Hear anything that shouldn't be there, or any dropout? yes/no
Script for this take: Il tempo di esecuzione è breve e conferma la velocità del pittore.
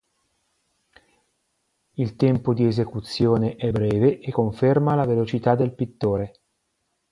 no